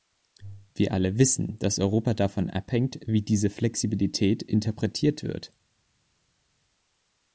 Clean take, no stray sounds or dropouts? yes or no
yes